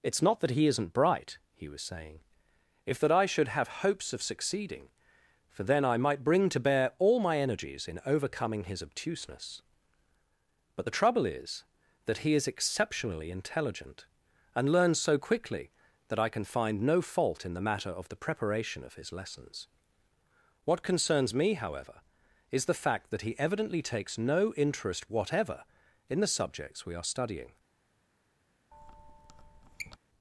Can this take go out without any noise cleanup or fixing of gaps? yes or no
no